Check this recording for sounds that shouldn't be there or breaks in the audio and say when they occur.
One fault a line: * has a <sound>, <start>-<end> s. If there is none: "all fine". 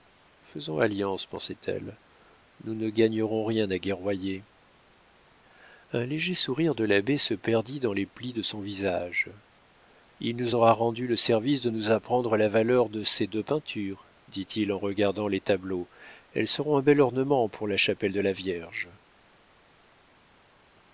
all fine